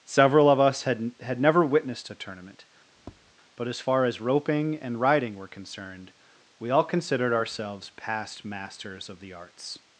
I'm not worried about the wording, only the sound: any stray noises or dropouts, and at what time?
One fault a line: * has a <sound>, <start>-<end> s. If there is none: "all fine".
* has a tap, 2.9-3.3 s